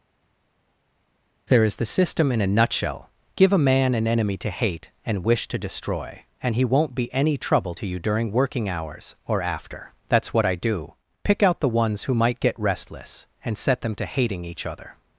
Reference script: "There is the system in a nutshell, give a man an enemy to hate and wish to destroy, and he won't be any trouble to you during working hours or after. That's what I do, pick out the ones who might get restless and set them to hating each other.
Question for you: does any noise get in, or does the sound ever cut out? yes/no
no